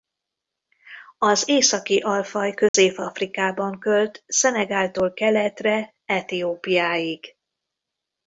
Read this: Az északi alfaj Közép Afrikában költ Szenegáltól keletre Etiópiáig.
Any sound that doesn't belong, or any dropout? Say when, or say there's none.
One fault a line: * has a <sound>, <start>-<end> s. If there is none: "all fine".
* has a dropout, 2.7-2.7 s